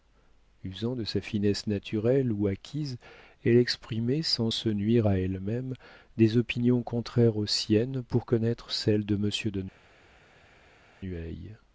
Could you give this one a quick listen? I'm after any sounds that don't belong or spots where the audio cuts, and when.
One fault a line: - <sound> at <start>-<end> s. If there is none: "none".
none